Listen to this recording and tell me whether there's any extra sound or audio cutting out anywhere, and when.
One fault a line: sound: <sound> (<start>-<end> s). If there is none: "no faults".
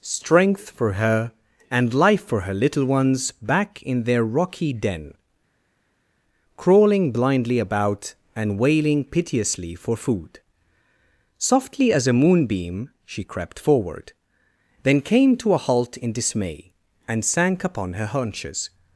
no faults